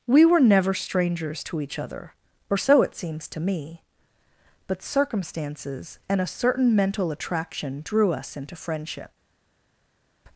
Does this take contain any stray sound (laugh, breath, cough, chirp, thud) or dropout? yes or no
no